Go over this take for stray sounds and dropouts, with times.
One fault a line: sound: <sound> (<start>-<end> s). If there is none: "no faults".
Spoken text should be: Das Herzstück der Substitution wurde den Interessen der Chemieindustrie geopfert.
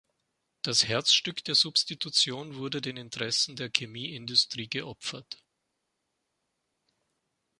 no faults